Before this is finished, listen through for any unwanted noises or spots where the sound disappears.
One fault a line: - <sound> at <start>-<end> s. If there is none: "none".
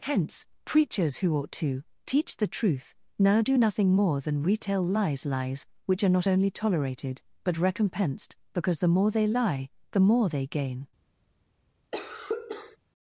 - cough at 11.9-12.8 s